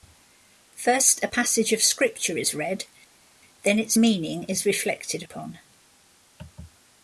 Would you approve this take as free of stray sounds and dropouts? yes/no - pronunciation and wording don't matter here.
yes